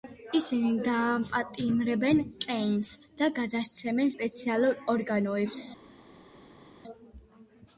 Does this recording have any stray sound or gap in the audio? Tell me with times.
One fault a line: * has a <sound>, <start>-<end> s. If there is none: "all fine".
all fine